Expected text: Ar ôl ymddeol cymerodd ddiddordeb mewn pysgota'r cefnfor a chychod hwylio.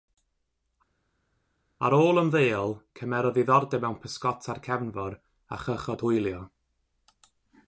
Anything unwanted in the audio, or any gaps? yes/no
no